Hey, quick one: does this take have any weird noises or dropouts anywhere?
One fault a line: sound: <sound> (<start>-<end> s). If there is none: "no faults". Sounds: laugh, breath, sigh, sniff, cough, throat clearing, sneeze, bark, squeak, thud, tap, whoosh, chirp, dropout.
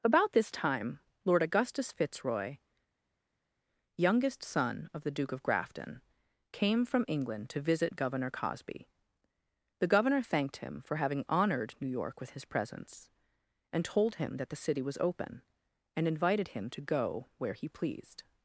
no faults